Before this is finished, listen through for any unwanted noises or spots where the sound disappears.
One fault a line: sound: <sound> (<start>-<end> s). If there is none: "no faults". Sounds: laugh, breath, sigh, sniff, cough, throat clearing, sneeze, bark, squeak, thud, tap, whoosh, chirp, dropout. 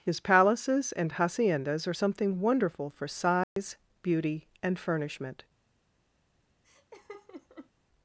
sound: dropout (3.4-3.6 s)
sound: laugh (6.6-7.7 s)